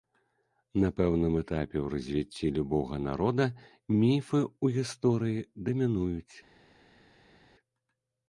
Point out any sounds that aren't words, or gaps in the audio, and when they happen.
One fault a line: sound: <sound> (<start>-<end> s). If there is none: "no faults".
no faults